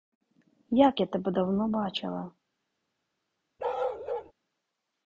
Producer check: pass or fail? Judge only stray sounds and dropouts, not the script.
fail